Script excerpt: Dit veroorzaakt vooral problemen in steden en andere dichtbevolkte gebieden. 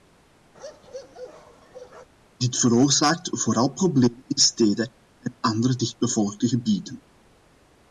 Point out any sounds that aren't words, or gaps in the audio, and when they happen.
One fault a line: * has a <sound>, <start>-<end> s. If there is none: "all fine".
* has a bark, 0.5-2.1 s